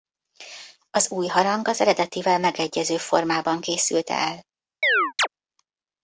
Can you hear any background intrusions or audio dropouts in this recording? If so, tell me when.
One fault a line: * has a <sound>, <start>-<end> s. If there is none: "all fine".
* has a chirp, 4.8-5.3 s